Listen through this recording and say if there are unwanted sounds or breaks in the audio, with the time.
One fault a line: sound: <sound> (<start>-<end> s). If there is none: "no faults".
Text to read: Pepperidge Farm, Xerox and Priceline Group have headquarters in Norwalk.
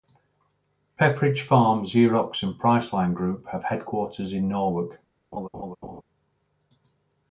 sound: laugh (5.3-6.0 s)